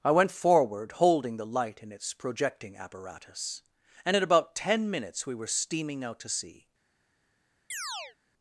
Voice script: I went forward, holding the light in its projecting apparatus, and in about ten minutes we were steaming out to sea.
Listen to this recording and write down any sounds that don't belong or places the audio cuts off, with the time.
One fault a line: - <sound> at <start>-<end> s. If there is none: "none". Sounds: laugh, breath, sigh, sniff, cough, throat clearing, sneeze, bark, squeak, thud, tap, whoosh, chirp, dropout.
- chirp at 7.7-8.2 s